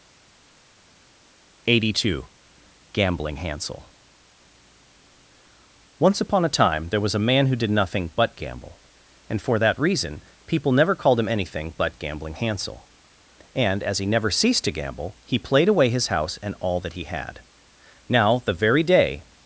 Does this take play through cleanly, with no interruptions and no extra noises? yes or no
yes